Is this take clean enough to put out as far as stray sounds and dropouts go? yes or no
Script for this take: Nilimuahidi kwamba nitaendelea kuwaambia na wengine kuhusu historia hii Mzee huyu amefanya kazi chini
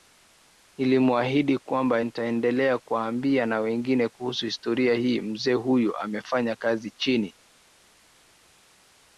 yes